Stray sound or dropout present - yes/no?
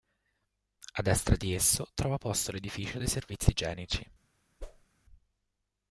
yes